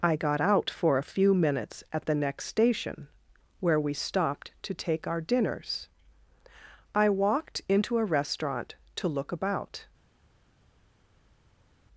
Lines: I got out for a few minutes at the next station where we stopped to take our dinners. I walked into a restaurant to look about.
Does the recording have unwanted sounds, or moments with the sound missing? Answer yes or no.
no